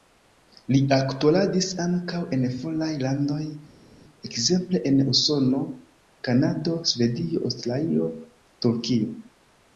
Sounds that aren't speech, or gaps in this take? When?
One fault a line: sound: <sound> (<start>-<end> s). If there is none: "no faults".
no faults